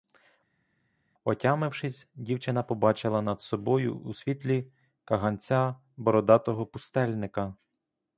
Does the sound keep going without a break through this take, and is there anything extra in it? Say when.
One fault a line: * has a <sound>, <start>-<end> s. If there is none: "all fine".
all fine